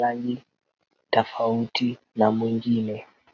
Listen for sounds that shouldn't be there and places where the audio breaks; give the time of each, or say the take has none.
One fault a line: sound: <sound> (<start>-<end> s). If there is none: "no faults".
no faults